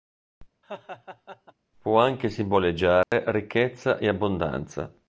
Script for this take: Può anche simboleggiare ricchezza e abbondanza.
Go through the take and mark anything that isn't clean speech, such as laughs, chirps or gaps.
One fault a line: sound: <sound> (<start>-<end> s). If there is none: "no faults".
sound: laugh (0.6-1.5 s)
sound: dropout (3.0-3.1 s)